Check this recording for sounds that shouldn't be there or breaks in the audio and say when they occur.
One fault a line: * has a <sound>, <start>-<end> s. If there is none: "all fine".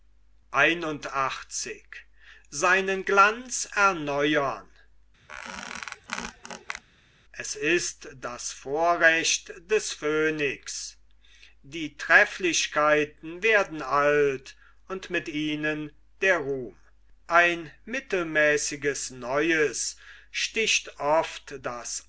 * has a squeak, 5.3-6.8 s